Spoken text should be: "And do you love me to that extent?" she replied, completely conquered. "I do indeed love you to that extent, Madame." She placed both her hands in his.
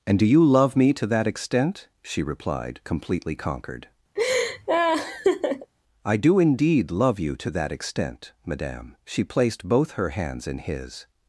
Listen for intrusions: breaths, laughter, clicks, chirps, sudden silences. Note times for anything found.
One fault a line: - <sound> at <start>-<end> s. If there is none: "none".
- laugh at 4.2-5.7 s